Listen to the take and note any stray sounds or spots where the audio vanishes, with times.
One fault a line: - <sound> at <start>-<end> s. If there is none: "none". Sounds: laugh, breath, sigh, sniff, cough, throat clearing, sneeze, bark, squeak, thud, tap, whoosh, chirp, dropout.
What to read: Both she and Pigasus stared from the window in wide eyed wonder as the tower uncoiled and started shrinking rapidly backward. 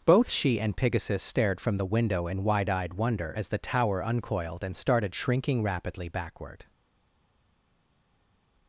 none